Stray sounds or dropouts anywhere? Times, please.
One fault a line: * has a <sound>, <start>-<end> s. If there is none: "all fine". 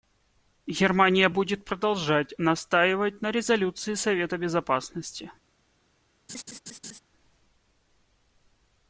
* has a laugh, 6.3-7.0 s